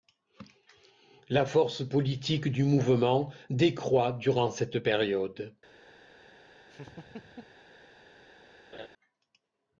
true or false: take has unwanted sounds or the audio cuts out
true